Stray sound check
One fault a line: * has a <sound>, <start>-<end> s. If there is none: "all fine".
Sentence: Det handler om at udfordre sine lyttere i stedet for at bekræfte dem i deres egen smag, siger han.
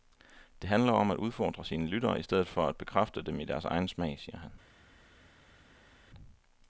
all fine